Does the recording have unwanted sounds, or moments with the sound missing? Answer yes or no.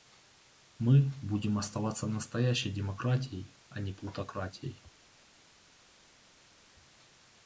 no